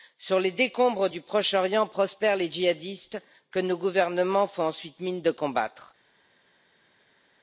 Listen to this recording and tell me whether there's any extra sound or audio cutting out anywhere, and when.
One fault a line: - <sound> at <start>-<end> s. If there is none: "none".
none